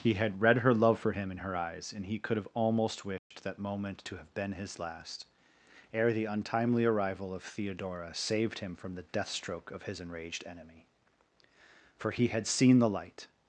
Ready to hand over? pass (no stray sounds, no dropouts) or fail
fail